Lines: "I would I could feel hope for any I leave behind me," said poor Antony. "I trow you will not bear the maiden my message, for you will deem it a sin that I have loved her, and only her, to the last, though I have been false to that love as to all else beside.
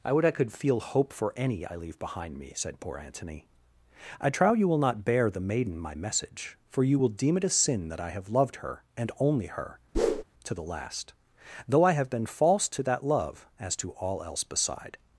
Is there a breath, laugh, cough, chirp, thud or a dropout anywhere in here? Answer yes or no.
yes